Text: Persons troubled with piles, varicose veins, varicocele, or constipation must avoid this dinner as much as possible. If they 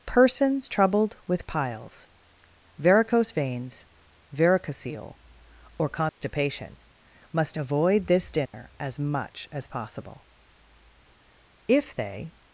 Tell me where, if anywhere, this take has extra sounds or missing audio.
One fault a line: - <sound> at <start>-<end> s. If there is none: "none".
- dropout at 6.1-6.2 s
- dropout at 8.5-8.5 s